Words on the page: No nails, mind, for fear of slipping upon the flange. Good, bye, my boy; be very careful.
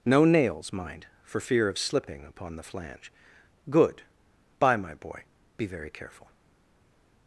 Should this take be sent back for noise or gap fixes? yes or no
no